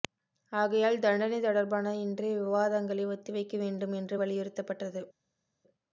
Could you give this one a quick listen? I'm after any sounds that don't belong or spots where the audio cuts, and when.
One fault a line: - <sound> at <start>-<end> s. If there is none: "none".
none